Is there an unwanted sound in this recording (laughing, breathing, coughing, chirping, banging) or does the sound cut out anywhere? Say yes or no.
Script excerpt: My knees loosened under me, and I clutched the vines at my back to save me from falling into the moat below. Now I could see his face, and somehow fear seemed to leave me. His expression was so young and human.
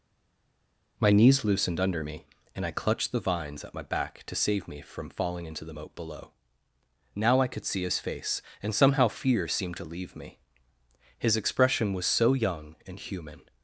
no